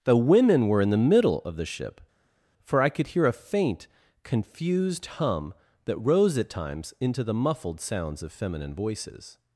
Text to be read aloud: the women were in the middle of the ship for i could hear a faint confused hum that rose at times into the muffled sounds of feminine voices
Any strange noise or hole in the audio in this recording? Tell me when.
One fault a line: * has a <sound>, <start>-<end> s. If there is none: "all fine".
all fine